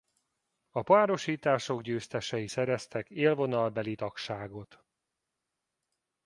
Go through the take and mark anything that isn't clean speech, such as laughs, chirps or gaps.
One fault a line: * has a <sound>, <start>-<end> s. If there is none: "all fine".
all fine